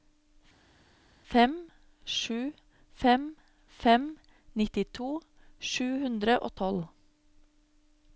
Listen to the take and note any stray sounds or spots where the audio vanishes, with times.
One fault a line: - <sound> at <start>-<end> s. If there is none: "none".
none